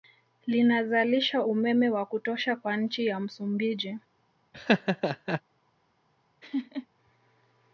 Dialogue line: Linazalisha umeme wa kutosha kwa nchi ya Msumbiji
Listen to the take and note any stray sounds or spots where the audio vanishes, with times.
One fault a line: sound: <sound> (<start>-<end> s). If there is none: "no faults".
sound: laugh (4.5-5.4 s)
sound: laugh (6.4-6.9 s)